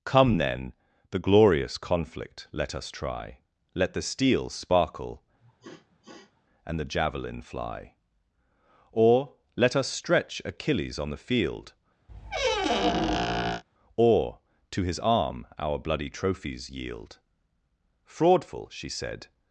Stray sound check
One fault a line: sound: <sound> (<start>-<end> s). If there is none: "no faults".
sound: sniff (5.4-6.4 s)
sound: squeak (12.1-13.6 s)